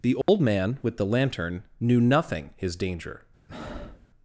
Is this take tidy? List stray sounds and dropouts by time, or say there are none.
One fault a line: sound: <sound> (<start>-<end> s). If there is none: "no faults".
sound: dropout (0.2-0.3 s)
sound: breath (3.5-4.1 s)